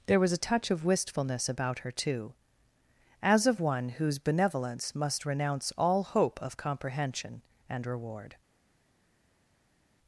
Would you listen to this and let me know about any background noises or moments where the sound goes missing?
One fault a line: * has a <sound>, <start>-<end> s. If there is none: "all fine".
all fine